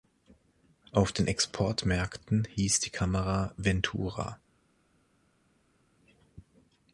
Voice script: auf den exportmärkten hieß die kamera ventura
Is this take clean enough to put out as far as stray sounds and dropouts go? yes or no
yes